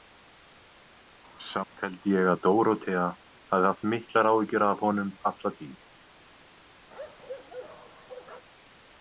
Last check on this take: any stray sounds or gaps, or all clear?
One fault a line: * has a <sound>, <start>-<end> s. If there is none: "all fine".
* has a bark, 6.9-8.4 s